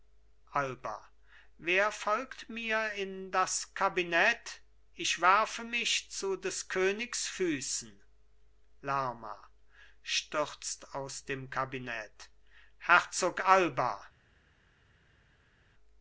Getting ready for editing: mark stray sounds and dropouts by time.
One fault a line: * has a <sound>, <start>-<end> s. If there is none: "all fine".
all fine